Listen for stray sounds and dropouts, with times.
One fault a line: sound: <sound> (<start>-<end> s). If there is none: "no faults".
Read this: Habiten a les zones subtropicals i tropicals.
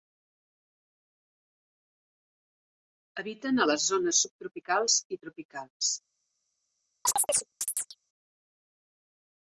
sound: chirp (7.1-8.0 s)